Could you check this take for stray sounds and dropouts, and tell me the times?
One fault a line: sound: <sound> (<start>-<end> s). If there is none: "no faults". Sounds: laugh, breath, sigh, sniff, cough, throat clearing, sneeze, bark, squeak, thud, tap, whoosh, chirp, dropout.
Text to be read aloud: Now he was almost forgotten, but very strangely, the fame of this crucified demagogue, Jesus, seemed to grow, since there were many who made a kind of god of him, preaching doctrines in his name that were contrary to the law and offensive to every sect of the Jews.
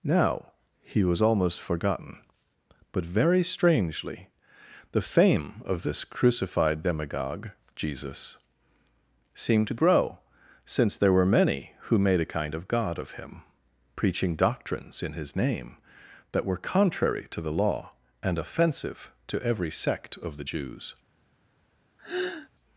sound: sigh (22.0-22.5 s)